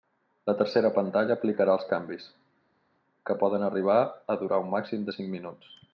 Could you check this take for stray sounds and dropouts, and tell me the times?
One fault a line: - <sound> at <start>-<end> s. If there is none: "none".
none